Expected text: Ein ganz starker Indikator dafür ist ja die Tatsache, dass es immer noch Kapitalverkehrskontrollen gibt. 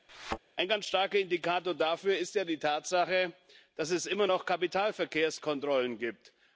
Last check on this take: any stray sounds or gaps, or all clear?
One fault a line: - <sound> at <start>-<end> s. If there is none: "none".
- thud at 0.1-0.4 s